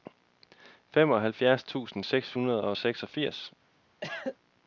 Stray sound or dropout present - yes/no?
yes